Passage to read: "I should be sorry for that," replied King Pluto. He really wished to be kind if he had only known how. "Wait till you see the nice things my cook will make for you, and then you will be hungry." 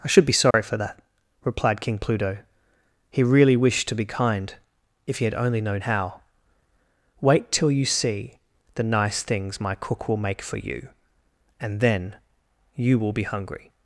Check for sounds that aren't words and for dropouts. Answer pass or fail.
fail